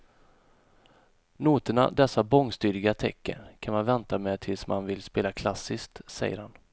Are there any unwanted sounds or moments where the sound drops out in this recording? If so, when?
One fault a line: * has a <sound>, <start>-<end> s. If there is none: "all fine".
all fine